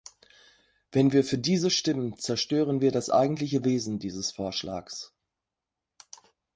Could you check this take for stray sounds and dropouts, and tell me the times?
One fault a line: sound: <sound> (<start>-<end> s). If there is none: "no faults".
no faults